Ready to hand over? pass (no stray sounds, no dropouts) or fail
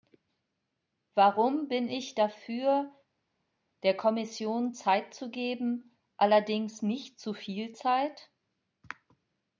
pass